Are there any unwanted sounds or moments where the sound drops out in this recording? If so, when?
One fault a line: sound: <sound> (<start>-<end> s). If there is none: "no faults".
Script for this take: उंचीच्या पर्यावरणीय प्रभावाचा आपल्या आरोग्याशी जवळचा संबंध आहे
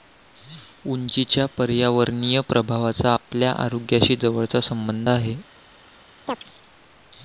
sound: chirp (6.3-6.4 s)